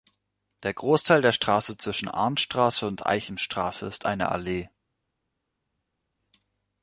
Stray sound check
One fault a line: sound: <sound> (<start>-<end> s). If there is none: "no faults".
no faults